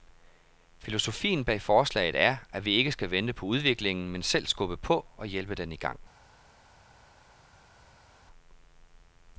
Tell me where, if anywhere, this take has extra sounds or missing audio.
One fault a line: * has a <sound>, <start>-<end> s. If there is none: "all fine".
all fine